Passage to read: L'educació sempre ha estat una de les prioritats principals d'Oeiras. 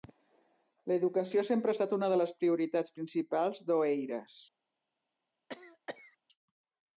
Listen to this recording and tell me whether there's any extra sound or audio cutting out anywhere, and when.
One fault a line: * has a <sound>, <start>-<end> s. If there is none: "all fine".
* has a cough, 5.5-6.2 s